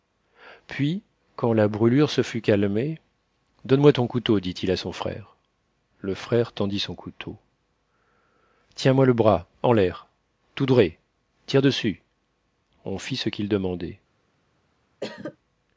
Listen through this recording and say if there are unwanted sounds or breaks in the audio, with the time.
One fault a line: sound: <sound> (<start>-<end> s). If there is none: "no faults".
sound: cough (15.0-15.4 s)